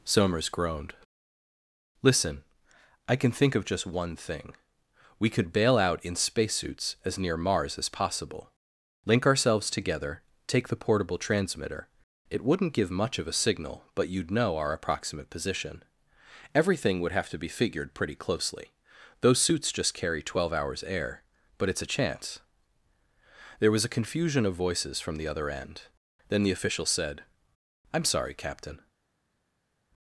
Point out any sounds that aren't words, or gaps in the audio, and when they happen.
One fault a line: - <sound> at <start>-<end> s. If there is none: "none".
none